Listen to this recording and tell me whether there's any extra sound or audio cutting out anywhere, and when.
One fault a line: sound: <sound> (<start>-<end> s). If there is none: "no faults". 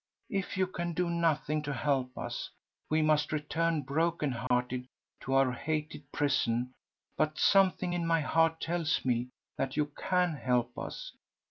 sound: dropout (4.5-4.5 s)